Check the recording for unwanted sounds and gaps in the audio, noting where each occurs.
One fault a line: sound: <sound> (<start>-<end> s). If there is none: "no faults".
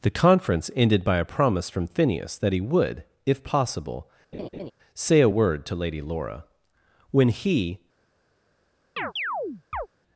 sound: laugh (4.3-4.7 s)
sound: chirp (9.0-9.9 s)